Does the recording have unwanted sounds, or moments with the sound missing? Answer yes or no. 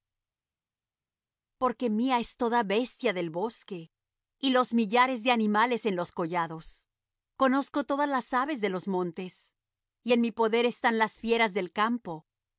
no